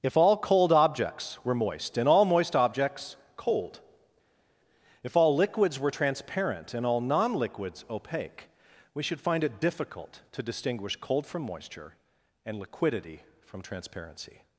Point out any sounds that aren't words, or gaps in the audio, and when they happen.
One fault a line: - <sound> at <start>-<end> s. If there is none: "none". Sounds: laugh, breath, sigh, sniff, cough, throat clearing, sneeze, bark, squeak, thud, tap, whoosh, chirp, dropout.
none